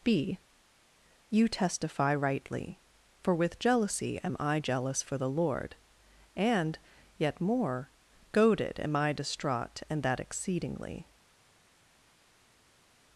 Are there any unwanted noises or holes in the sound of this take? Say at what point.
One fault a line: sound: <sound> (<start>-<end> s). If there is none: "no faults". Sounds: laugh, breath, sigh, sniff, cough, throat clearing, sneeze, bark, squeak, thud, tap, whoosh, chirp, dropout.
no faults